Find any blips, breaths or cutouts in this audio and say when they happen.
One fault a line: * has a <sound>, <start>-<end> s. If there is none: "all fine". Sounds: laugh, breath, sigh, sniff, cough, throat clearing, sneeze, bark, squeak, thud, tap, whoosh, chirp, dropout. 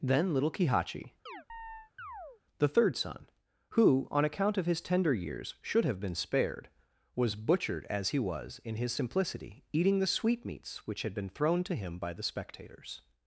* has a chirp, 1.3-2.4 s